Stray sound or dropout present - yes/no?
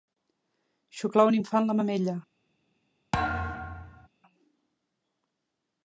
yes